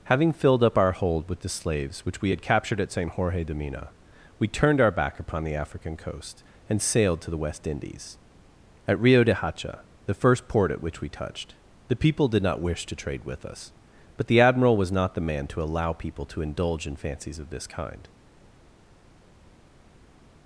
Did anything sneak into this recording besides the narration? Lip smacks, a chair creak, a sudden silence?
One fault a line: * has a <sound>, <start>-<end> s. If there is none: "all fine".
all fine